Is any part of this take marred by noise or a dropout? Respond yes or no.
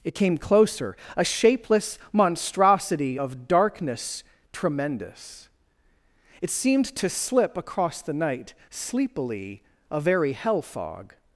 no